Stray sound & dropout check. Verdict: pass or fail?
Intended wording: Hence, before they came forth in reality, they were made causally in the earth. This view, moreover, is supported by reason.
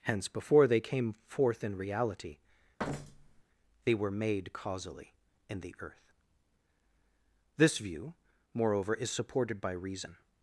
fail